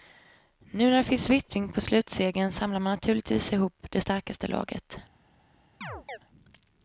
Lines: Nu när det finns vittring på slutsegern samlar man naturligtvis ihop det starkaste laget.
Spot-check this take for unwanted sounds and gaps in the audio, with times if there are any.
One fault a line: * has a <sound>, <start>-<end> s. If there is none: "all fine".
* has a chirp, 5.8-6.2 s